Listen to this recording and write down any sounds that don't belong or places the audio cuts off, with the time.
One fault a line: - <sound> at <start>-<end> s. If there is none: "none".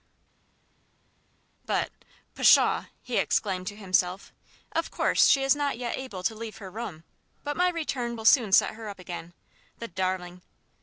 none